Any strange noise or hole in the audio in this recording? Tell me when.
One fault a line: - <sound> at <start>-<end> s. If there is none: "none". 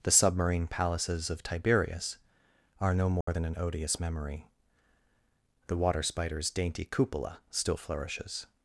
- dropout at 3.2-3.3 s